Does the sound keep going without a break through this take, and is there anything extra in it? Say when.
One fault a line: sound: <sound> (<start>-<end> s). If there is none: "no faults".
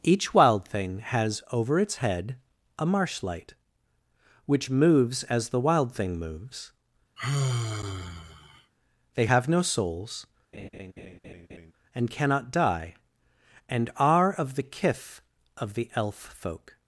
sound: sigh (7.2-8.7 s)
sound: laugh (10.5-11.7 s)